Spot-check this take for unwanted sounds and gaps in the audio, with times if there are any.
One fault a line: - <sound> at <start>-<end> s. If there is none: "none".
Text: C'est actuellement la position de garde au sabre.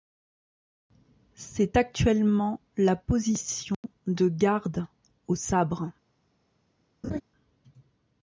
- dropout at 3.7-3.8 s
- laugh at 7.0-7.2 s